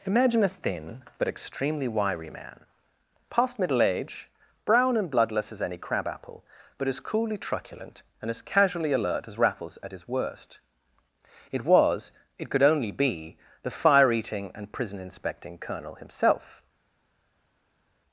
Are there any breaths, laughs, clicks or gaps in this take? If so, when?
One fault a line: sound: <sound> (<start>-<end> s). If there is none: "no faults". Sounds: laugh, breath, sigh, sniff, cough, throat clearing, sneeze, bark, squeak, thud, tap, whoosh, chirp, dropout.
no faults